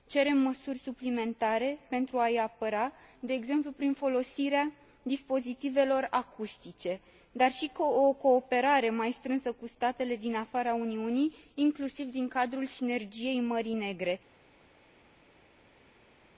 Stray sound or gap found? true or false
false